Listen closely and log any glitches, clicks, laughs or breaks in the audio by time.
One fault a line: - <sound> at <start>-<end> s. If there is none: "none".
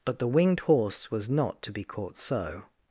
none